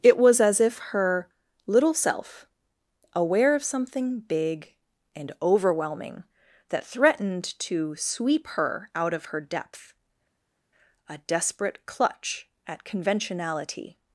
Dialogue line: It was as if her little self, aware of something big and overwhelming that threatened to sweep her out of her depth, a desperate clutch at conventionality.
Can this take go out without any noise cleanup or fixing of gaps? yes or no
yes